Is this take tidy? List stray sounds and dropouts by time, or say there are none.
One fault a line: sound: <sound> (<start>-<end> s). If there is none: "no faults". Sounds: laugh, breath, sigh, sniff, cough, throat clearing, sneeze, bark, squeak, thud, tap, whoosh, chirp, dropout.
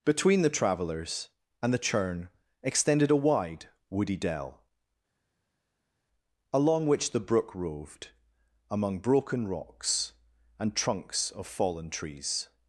no faults